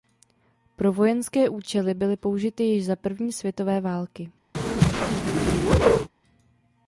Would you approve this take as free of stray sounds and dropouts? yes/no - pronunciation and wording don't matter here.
no